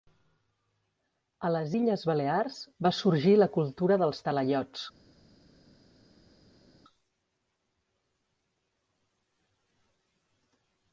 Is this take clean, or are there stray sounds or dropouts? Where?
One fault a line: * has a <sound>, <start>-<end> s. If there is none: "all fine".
all fine